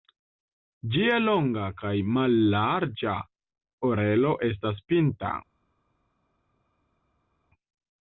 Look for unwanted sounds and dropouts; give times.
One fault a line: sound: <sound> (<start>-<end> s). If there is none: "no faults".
no faults